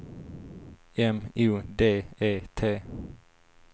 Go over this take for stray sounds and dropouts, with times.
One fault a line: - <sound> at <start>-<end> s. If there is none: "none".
none